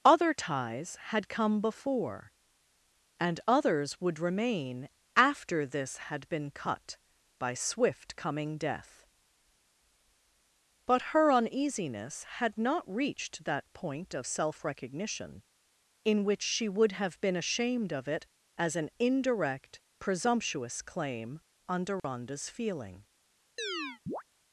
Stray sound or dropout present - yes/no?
yes